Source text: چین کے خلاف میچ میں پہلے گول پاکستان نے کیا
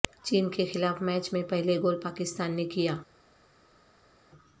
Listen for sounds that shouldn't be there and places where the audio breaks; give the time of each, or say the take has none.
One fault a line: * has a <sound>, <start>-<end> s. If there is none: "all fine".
all fine